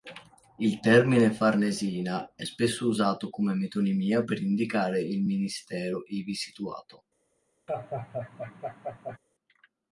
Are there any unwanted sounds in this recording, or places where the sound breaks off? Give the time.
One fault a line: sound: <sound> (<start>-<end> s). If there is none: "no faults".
sound: laugh (7.7-9.2 s)